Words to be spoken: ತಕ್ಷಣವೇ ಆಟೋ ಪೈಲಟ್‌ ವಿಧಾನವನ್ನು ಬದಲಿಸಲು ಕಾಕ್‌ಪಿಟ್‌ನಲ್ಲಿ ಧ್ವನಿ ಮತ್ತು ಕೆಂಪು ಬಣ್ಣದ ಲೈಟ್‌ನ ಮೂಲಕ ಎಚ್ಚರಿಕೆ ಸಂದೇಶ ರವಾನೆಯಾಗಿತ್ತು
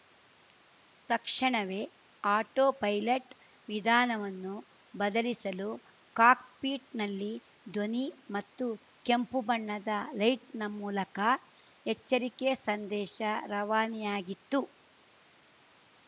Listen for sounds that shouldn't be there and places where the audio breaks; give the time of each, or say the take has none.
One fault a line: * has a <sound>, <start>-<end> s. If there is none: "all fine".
all fine